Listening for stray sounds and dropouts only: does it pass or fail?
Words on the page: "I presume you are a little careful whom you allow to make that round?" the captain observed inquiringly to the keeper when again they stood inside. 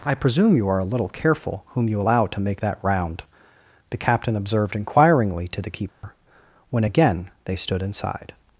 fail